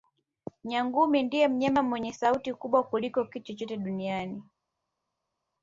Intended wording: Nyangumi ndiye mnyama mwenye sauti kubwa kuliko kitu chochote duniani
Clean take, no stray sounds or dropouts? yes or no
yes